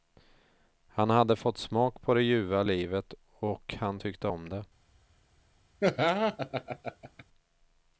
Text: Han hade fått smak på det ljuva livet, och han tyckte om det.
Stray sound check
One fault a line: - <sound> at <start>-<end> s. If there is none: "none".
- laugh at 5.8-7.2 s